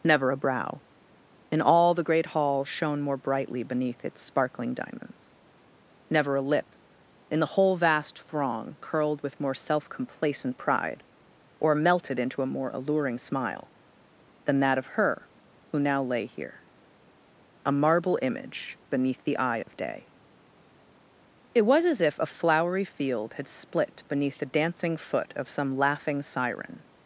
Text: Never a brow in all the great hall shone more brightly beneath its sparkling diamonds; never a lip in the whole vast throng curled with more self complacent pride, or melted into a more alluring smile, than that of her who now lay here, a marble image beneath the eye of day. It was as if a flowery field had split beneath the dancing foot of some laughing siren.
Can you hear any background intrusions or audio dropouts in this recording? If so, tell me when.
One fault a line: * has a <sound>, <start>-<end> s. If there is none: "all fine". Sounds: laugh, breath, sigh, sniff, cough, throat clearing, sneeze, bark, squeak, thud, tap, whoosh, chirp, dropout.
* has a dropout, 19.6-19.7 s